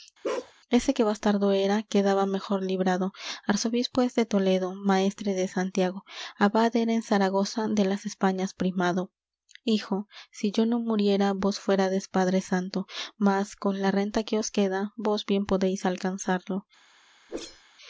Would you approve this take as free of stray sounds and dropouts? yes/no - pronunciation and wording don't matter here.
no